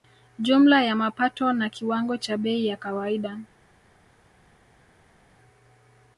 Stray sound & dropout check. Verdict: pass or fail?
pass